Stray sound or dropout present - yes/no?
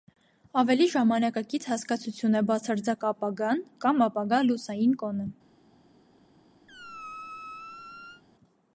yes